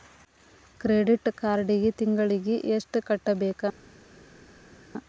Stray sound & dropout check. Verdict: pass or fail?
pass